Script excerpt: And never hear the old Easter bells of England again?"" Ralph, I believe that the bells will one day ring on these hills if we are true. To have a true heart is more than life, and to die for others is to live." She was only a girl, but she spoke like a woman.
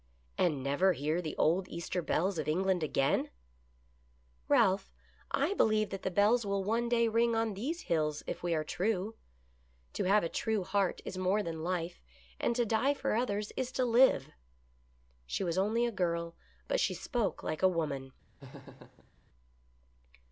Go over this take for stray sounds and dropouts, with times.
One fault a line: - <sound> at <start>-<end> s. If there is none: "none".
- laugh at 18.4-19.1 s